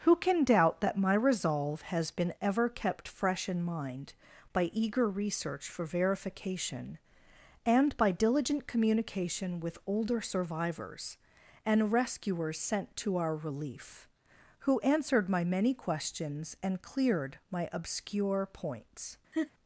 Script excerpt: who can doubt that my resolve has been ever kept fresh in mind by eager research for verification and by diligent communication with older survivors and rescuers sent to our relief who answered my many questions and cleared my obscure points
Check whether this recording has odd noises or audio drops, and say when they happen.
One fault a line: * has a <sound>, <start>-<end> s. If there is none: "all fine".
* has a laugh, 19.3-19.5 s